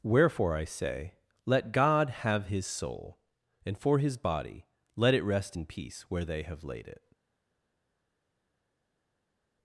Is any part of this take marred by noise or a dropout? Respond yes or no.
no